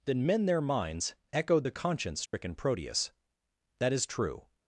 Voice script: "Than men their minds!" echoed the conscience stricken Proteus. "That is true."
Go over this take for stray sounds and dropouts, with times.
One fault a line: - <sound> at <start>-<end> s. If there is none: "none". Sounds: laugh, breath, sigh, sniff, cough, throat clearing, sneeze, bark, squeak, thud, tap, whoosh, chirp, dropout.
- dropout at 2.3-2.3 s